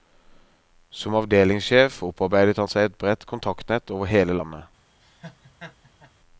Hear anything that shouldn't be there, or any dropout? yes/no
yes